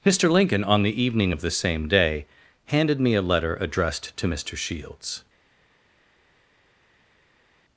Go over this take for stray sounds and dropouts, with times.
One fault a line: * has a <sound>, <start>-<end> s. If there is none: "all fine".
all fine